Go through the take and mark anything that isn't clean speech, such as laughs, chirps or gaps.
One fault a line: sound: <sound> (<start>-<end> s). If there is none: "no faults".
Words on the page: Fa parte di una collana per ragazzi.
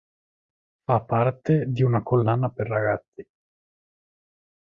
no faults